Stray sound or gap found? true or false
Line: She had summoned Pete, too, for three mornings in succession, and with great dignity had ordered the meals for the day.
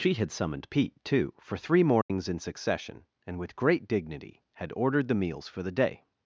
true